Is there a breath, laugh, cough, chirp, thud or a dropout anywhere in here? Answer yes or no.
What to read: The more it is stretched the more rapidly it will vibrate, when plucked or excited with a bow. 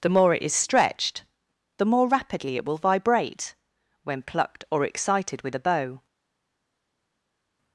no